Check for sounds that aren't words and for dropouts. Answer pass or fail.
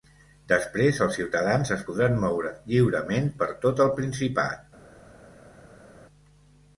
pass